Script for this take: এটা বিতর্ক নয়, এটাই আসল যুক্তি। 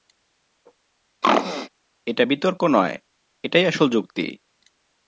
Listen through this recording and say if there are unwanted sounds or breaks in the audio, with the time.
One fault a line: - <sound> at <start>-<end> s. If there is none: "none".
- throat clearing at 1.2-1.7 s